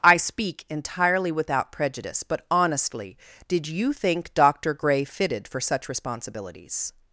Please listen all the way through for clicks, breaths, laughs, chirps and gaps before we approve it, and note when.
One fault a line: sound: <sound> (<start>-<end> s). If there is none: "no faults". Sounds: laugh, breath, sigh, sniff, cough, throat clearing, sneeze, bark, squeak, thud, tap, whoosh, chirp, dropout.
no faults